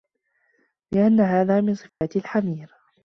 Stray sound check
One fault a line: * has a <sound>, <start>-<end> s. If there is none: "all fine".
* has a dropout, 1.9-2.0 s